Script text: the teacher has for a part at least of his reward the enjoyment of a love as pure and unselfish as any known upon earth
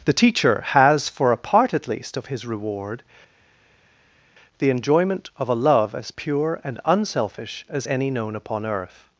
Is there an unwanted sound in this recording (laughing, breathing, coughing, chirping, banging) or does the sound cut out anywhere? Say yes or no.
no